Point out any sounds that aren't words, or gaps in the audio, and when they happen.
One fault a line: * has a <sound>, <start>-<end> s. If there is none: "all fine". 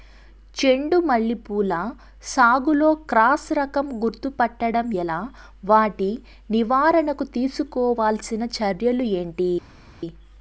all fine